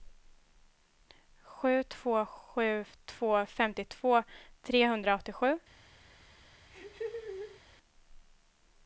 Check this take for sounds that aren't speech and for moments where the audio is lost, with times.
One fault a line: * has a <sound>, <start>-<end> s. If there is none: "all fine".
* has a laugh, 6.7-7.6 s